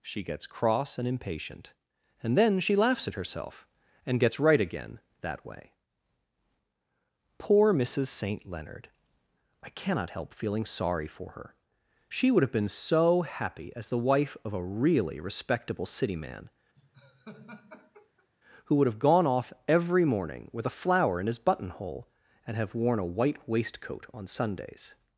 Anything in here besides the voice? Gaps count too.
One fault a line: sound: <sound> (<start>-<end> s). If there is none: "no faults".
sound: laugh (16.8-18.3 s)